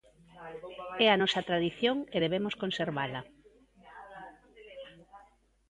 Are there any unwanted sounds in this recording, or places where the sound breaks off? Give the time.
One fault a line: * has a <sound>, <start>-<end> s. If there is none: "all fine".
all fine